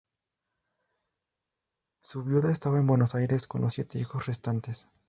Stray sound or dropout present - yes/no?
no